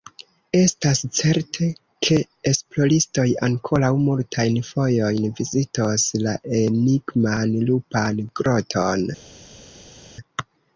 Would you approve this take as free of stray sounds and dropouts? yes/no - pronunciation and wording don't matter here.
yes